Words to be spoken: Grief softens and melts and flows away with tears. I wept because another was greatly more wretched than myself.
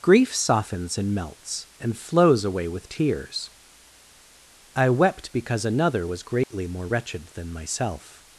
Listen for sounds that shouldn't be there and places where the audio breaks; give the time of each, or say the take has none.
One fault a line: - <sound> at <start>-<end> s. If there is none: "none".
- dropout at 6.4-6.5 s